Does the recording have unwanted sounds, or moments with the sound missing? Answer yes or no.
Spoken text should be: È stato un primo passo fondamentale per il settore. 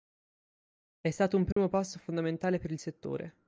yes